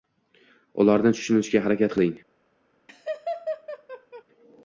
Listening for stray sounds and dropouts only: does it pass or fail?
fail